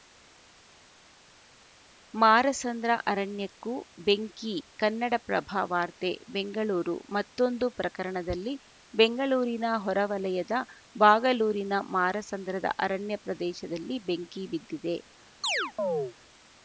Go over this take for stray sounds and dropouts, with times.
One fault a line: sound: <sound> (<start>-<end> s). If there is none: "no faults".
sound: chirp (15.4-16.1 s)